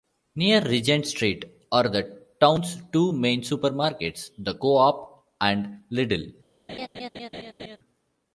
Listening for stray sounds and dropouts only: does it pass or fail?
fail